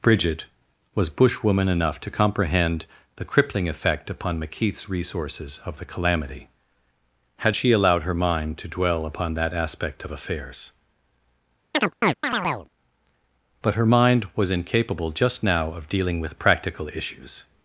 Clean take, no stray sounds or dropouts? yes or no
no